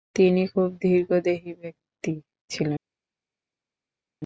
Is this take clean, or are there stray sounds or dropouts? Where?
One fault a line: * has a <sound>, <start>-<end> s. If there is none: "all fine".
all fine